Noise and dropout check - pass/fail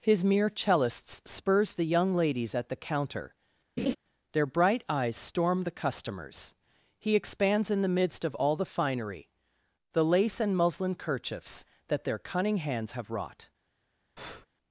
fail